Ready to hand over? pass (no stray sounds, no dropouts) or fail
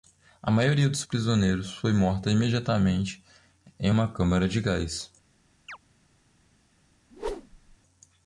fail